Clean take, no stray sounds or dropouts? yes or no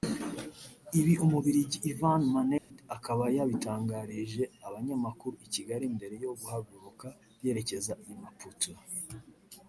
no